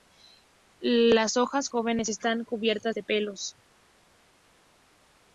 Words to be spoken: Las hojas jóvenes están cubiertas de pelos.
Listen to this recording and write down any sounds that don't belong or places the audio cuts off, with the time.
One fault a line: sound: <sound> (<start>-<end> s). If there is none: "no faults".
no faults